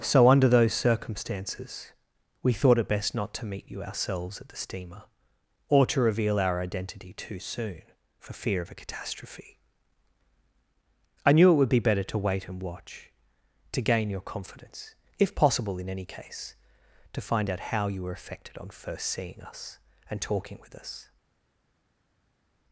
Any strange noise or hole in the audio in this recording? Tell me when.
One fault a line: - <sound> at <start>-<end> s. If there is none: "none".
none